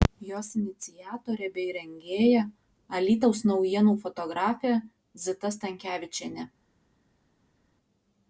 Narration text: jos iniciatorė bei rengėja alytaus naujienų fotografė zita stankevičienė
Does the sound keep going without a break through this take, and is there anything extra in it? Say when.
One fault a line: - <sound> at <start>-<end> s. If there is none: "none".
none